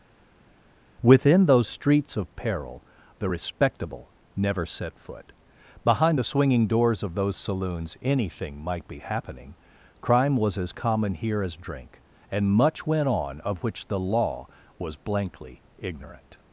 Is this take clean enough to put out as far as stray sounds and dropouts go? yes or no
yes